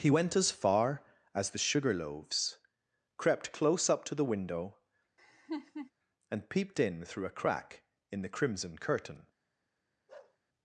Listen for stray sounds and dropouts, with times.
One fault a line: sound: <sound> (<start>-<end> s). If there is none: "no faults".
sound: laugh (5.2-5.9 s)
sound: bark (10.1-10.4 s)